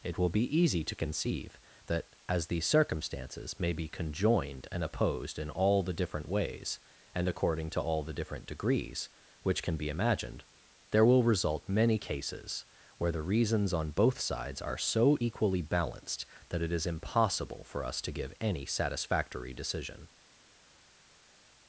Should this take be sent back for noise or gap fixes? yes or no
no